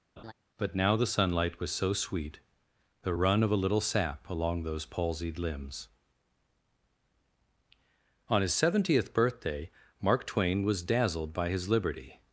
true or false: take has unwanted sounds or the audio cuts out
true